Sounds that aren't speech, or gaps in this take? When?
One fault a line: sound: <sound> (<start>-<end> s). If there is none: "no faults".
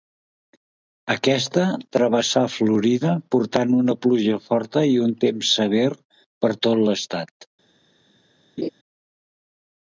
sound: laugh (8.6-8.7 s)